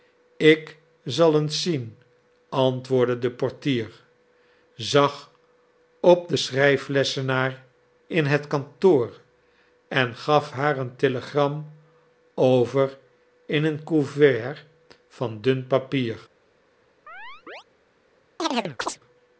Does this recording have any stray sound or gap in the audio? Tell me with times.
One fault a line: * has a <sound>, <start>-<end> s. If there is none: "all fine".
* has a chirp, 17.1-17.6 s
* has a chirp, 18.4-19.0 s